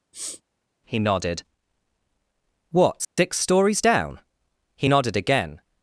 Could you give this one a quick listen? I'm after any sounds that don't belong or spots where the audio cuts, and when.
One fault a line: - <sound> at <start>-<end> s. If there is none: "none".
- sniff at 0.1-0.4 s
- dropout at 3.0-3.2 s